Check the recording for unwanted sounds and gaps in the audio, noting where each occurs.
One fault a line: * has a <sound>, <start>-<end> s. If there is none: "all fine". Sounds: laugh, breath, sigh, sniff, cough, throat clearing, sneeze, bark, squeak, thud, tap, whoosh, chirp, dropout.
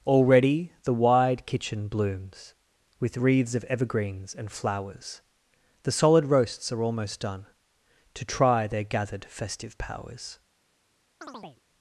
* has a chirp, 11.2-11.6 s